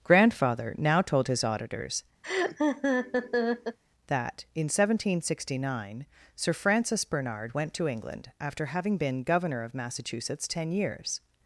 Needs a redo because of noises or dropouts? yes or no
yes